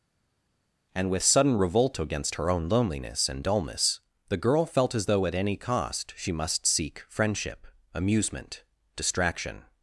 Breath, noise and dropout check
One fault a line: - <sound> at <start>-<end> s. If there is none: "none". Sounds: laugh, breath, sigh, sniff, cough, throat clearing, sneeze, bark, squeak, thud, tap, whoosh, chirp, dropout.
none